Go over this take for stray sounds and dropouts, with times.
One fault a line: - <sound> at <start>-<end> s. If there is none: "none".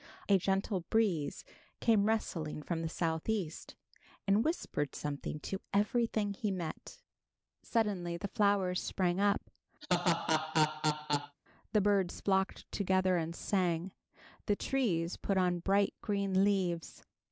- laugh at 9.8-11.4 s